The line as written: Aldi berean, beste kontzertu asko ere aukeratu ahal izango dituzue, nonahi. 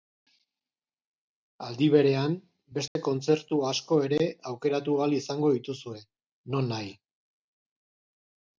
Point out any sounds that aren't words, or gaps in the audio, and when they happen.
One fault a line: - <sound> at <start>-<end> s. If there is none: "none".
- dropout at 2.9-3.0 s